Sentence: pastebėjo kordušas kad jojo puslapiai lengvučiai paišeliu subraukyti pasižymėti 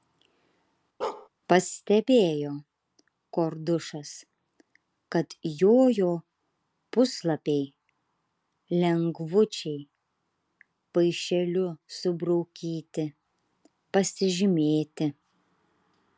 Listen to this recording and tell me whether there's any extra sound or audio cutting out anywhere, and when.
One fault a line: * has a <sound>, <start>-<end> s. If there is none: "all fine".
* has a bark, 1.0-1.3 s